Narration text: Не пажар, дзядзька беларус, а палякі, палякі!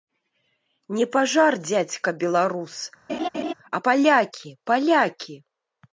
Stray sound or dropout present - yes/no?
yes